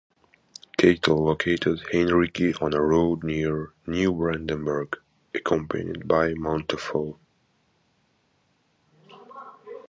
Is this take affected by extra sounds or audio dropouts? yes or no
no